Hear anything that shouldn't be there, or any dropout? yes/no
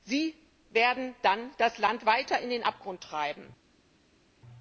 no